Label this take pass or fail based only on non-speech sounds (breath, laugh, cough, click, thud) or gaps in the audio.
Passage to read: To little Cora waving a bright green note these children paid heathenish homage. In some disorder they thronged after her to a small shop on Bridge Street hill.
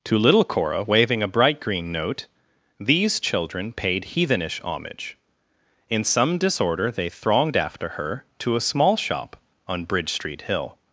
pass